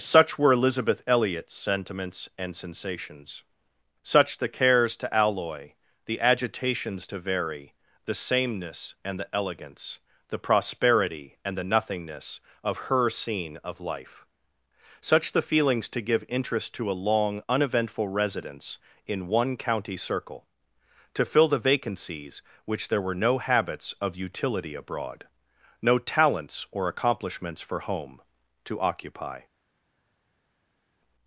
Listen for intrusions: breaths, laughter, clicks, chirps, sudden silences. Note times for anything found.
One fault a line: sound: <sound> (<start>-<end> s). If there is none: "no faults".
no faults